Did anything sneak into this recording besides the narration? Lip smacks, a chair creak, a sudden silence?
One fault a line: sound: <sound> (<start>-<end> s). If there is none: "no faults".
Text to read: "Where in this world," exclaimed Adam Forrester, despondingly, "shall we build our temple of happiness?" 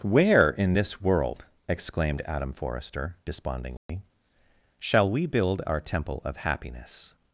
sound: dropout (3.8-3.9 s)